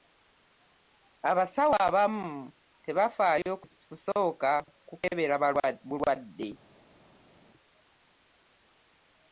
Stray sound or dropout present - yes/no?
no